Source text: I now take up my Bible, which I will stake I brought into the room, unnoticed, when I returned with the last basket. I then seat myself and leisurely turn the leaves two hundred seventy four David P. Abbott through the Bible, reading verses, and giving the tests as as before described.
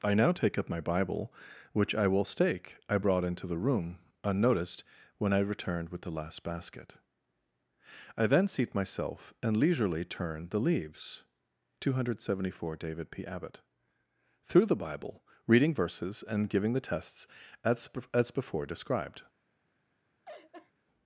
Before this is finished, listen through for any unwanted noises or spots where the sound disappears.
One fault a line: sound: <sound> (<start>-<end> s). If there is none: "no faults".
sound: laugh (20.2-20.7 s)